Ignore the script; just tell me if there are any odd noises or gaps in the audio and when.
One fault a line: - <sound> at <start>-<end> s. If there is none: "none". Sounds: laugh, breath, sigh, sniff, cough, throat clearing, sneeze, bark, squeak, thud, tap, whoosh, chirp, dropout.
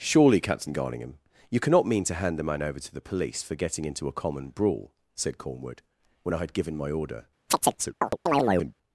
- chirp at 7.5-8.7 s